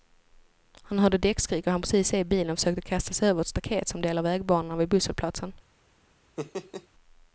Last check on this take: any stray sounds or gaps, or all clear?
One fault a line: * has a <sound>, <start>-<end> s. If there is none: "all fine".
* has a laugh, 6.4-6.9 s